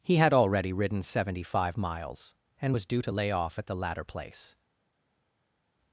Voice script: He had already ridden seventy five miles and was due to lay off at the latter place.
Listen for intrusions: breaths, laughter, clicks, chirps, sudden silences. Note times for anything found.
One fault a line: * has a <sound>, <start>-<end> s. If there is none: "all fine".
all fine